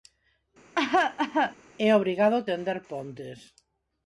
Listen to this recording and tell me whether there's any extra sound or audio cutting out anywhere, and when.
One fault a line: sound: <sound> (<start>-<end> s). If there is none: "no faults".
sound: cough (0.8-1.6 s)